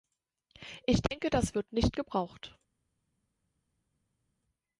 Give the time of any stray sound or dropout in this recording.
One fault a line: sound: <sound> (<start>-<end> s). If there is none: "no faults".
no faults